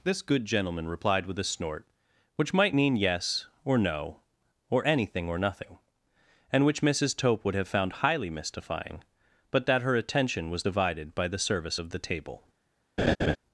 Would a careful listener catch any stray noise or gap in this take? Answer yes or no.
yes